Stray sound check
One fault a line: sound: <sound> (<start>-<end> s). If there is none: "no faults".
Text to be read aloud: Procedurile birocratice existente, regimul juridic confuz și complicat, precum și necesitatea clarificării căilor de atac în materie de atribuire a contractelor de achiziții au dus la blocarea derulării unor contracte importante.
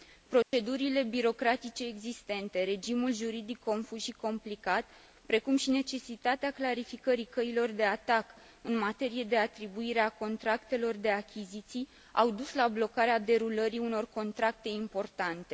sound: dropout (0.4-0.5 s)